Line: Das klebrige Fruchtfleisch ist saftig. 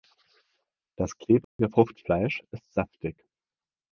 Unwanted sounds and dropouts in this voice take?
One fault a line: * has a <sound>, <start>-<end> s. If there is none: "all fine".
* has a dropout, 1.4-1.6 s